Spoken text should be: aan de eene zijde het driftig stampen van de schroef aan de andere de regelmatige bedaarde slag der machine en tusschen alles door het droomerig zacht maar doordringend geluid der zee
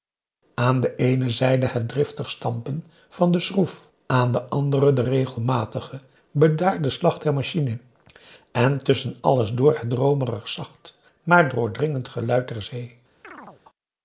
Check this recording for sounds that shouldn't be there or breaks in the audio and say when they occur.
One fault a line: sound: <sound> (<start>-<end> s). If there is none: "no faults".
sound: chirp (13.2-13.6 s)